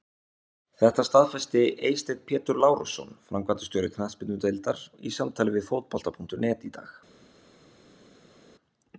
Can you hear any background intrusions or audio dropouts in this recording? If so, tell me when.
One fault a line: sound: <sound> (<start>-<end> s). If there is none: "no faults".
no faults